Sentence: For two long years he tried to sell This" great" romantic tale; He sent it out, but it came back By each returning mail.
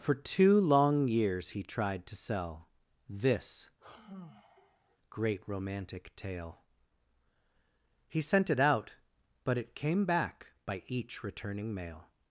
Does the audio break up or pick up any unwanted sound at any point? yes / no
yes